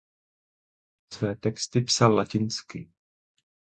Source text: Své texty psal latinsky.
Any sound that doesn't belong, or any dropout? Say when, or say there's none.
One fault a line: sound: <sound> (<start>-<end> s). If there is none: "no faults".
no faults